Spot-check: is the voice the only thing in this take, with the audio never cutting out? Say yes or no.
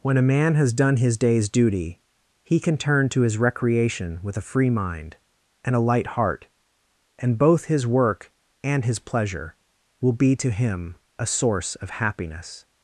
yes